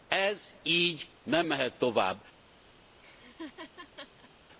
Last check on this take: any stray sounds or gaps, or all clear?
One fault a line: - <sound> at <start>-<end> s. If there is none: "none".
- laugh at 3.0-4.3 s